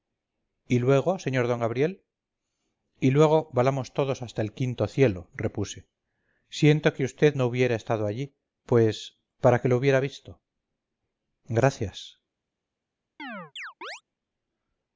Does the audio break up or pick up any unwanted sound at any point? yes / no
yes